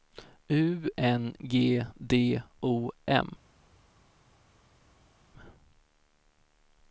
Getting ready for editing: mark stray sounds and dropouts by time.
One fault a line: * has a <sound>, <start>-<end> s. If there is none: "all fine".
all fine